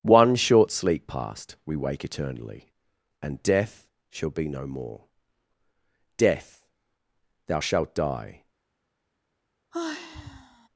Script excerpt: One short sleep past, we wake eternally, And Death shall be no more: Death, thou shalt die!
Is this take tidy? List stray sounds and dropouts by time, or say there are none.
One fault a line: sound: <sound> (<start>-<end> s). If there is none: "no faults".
sound: sigh (9.7-10.7 s)